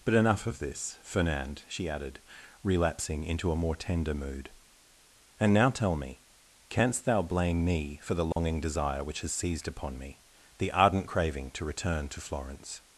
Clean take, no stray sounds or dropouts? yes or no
no